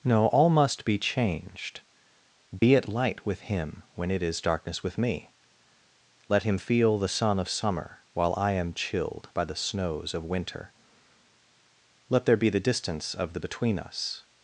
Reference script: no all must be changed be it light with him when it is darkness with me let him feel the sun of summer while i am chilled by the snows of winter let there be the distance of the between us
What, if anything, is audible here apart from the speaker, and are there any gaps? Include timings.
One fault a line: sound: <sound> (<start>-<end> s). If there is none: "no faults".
sound: dropout (2.6-2.6 s)